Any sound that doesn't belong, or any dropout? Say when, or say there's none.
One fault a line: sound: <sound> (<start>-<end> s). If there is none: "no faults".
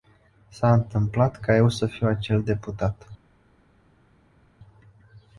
no faults